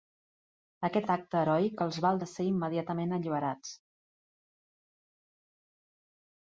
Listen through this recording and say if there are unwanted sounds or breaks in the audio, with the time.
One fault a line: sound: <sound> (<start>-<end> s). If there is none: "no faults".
no faults